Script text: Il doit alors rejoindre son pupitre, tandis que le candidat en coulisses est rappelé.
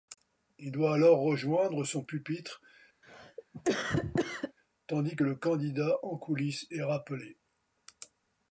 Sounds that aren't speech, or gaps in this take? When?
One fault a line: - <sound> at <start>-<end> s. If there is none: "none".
- cough at 3.0-4.5 s